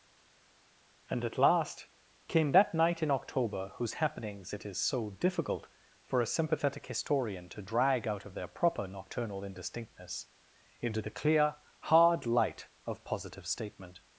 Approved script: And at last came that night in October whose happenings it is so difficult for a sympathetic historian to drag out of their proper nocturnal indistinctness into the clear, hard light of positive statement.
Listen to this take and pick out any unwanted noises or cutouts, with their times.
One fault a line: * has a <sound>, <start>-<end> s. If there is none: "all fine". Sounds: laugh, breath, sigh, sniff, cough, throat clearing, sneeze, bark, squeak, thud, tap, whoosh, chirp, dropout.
all fine